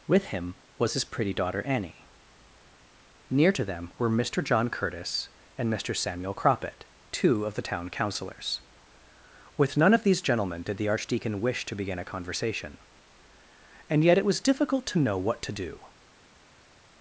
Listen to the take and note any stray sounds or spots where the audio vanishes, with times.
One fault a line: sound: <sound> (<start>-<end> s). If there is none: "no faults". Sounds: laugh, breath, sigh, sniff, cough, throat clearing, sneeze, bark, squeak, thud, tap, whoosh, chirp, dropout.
no faults